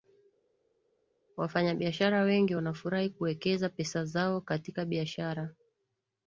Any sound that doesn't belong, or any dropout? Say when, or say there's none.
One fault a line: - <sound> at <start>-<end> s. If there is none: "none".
none